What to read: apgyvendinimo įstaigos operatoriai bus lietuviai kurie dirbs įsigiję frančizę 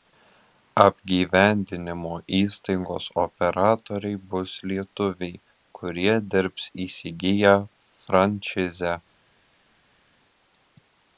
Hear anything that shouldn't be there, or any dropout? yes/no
no